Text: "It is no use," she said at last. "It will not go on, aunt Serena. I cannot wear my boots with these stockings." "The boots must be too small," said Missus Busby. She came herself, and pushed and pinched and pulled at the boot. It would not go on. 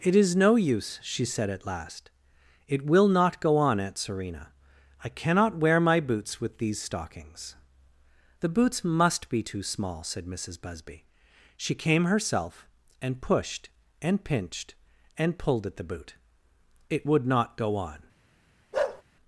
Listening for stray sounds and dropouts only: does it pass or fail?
fail